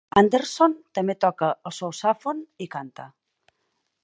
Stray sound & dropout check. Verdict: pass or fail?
pass